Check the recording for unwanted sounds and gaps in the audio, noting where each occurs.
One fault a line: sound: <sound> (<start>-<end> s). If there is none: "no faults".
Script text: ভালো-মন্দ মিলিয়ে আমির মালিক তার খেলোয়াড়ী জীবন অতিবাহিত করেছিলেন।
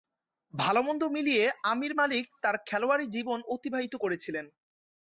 no faults